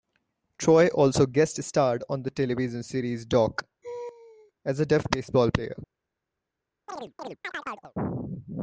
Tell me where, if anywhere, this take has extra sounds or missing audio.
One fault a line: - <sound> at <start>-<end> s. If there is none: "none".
- laugh at 3.8-4.5 s
- chirp at 6.9-7.9 s